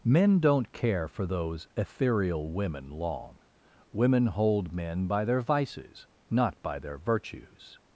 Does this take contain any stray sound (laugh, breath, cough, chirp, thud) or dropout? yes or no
no